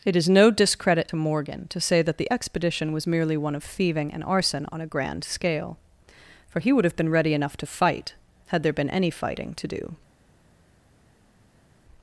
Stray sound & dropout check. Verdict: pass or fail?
pass